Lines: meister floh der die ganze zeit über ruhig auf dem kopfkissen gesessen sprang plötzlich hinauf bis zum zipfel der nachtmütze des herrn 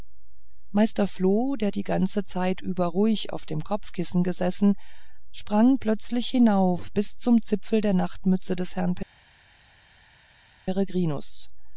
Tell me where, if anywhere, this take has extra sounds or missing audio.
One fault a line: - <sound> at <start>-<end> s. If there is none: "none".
none